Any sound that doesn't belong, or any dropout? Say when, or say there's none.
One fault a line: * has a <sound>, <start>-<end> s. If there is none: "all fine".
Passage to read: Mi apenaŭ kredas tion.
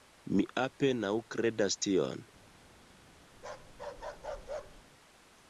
* has a bark, 3.3-4.8 s